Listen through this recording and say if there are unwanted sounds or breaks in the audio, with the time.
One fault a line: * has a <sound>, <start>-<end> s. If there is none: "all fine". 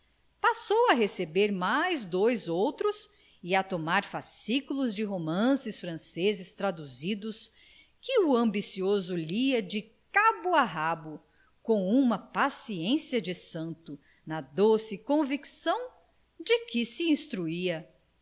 all fine